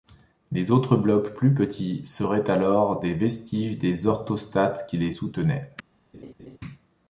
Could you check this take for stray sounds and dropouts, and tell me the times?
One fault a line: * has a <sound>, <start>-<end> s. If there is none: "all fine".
* has a laugh, 6.1-6.6 s